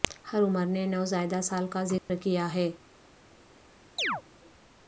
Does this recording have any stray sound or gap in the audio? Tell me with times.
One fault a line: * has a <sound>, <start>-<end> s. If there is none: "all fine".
* has a dropout, 2.0-2.1 s
* has a chirp, 4.0-4.2 s